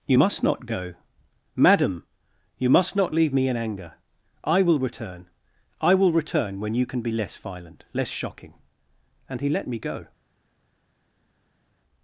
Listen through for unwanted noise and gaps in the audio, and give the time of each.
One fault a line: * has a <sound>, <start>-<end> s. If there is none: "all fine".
all fine